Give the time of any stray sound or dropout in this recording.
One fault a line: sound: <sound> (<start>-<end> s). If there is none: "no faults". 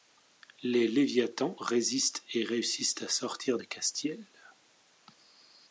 no faults